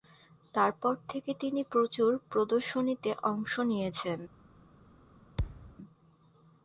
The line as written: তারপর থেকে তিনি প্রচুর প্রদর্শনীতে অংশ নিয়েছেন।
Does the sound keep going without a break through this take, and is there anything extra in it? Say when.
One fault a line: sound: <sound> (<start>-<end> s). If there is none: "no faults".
sound: thud (5.4-5.8 s)